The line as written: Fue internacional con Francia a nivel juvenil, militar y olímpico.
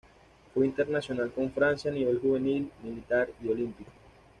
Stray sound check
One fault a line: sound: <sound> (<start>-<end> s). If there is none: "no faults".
no faults